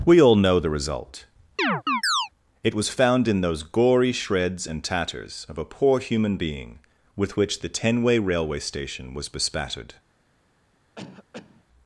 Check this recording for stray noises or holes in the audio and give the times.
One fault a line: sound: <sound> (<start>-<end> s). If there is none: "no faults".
sound: chirp (1.6-2.3 s)
sound: cough (11.0-11.6 s)